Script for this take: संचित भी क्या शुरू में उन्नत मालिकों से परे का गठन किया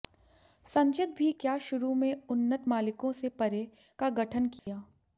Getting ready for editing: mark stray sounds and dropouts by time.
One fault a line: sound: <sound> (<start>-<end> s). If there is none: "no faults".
sound: dropout (4.6-4.7 s)